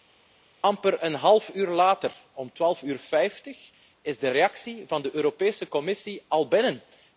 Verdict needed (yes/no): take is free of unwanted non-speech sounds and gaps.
yes